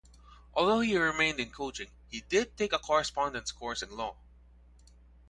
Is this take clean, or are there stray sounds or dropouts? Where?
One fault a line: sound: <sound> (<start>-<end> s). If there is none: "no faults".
no faults